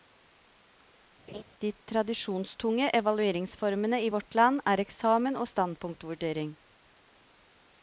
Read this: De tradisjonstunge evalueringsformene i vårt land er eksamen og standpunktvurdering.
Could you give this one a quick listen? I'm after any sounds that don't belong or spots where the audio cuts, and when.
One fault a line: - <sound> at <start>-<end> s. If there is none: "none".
- laugh at 1.3-1.4 s